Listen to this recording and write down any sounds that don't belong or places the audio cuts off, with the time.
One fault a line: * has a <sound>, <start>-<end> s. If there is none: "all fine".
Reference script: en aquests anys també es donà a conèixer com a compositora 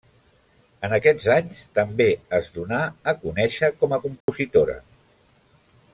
* has a dropout, 4.2-4.3 s